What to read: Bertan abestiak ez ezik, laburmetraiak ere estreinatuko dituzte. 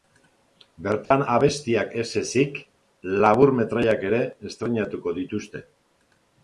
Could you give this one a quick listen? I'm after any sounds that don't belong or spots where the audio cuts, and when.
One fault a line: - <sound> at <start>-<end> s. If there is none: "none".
- dropout at 1.1-1.1 s